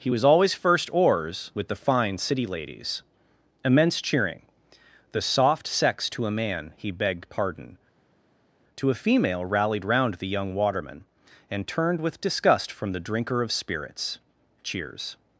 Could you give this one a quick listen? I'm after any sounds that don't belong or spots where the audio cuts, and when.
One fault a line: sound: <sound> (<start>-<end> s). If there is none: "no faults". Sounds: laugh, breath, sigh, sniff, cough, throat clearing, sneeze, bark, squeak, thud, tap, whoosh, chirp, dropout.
no faults